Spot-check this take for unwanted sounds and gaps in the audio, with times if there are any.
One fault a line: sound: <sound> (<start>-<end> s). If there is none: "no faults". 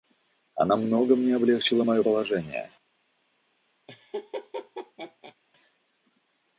sound: laugh (3.9-5.4 s)